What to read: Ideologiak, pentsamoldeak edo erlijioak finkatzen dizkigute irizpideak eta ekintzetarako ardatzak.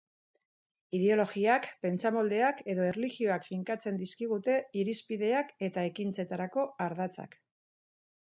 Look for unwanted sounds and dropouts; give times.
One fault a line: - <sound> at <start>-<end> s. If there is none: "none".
none